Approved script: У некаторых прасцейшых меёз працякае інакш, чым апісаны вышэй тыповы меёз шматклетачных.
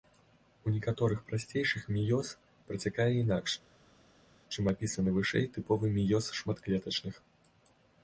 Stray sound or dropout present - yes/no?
no